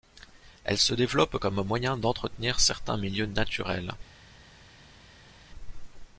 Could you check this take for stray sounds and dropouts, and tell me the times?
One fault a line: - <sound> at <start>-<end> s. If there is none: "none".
none